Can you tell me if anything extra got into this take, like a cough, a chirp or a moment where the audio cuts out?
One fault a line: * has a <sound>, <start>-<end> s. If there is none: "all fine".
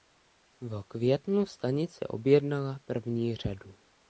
all fine